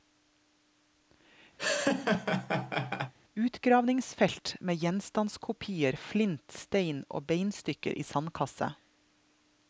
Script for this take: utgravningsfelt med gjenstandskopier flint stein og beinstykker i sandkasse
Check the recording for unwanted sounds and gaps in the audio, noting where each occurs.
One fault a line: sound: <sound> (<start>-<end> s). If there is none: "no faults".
sound: laugh (1.6-3.1 s)